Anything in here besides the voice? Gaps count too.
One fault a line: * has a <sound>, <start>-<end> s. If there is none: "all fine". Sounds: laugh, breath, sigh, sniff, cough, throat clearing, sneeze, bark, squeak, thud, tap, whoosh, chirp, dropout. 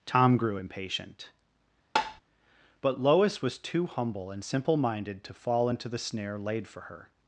* has a tap, 2.0-2.2 s